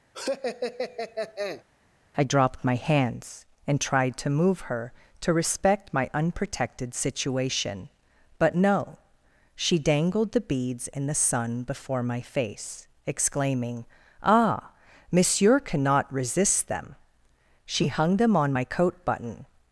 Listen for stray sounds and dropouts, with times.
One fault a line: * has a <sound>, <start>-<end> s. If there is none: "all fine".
* has a laugh, 0.1-1.6 s